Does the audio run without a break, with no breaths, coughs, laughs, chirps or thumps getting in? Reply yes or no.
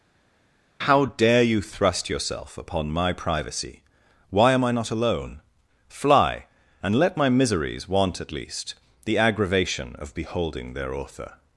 yes